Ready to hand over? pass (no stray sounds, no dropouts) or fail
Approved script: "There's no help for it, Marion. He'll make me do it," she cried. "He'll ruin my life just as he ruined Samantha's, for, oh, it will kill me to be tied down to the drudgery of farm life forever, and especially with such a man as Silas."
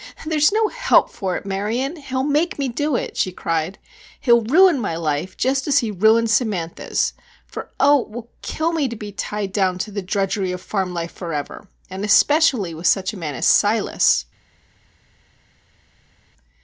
pass